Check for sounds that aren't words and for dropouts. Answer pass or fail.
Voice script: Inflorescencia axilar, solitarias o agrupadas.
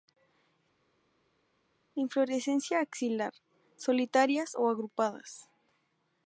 pass